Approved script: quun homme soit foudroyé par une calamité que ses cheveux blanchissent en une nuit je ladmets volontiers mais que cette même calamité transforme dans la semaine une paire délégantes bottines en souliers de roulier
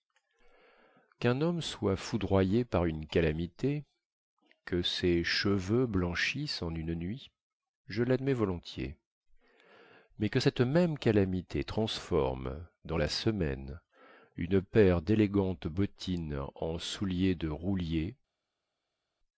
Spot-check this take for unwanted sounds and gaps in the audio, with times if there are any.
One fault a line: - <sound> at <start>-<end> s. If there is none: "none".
none